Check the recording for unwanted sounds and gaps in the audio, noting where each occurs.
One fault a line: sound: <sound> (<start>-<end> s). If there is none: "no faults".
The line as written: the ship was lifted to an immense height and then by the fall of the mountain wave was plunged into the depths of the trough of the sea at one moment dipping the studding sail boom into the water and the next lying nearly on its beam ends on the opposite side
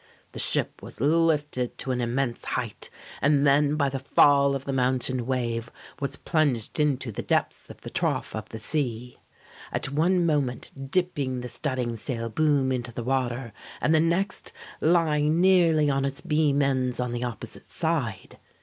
no faults